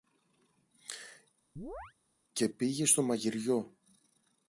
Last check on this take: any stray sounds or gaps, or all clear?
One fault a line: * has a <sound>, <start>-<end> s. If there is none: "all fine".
* has a chirp, 1.6-1.9 s